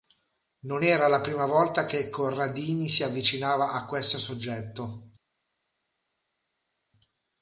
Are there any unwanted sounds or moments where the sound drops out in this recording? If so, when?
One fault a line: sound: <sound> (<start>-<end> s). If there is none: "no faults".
no faults